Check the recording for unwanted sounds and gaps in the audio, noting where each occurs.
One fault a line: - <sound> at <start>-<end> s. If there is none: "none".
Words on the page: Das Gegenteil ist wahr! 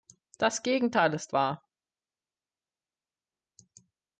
none